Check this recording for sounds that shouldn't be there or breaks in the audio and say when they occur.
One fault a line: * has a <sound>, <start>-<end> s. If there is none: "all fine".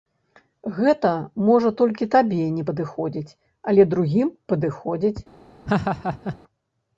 * has a laugh, 5.7-6.4 s